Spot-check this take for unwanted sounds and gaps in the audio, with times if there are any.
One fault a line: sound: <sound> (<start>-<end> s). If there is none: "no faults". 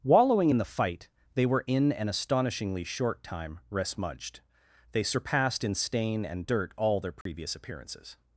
sound: dropout (7.2-7.3 s)